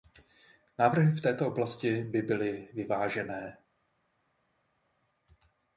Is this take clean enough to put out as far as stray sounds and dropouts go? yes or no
yes